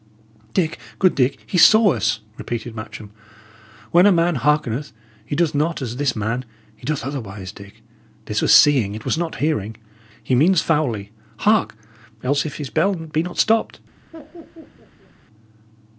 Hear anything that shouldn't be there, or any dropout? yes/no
yes